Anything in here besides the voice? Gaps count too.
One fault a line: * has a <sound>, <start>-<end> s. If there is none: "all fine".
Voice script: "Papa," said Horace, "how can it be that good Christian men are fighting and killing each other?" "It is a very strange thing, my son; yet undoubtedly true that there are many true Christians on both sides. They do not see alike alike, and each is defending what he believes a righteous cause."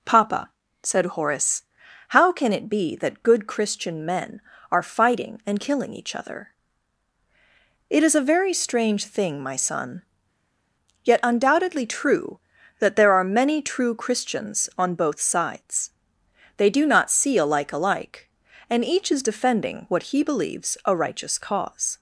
all fine